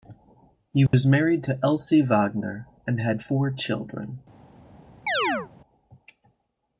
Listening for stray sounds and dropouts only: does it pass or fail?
fail